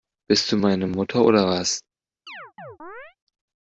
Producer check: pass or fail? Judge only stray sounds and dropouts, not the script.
fail